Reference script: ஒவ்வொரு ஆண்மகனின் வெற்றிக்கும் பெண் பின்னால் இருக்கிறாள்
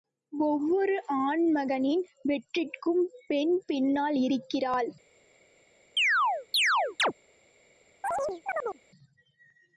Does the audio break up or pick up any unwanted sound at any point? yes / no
yes